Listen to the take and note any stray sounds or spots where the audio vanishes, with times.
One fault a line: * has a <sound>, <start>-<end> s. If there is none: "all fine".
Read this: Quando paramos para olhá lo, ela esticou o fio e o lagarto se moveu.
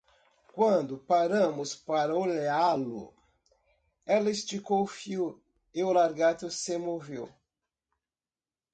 all fine